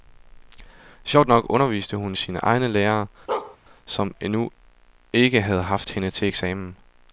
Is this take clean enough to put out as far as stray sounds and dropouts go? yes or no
no